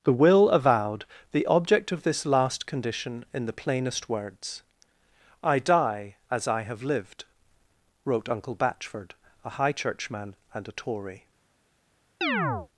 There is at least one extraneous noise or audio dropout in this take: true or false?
true